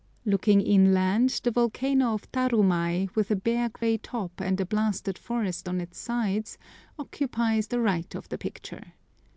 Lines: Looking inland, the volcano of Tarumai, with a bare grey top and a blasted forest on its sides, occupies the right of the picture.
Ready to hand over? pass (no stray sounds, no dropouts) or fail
fail